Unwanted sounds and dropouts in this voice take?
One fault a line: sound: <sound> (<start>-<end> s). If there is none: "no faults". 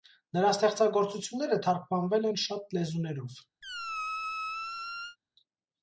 sound: squeak (3.6-5.2 s)